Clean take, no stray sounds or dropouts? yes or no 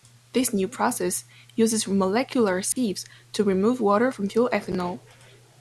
no